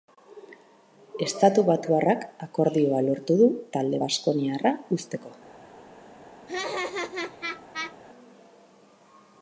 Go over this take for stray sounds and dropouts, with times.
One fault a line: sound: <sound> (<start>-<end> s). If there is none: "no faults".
sound: laugh (6.5-8.0 s)